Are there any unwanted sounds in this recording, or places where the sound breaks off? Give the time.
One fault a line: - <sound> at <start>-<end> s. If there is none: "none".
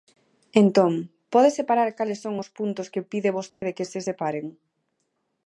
- dropout at 3.5-3.6 s